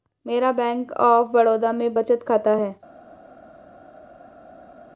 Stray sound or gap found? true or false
false